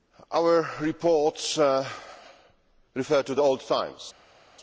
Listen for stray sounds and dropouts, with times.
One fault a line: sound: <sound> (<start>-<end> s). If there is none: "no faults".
no faults